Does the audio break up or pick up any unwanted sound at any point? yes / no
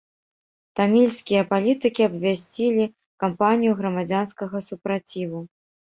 no